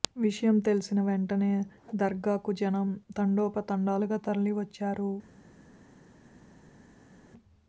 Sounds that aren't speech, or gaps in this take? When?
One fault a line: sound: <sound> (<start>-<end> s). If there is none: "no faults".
no faults